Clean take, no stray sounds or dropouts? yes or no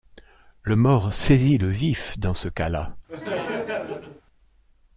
no